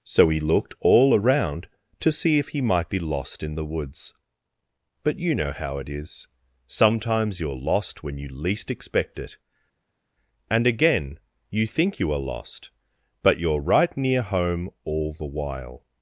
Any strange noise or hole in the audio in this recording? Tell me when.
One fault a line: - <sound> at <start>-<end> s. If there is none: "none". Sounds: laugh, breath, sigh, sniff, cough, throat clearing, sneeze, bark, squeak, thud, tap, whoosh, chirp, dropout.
none